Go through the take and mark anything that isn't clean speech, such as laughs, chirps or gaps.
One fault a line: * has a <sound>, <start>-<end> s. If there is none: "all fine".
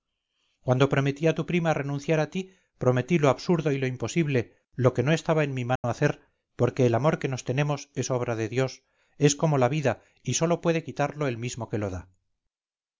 * has a dropout, 5.8-5.8 s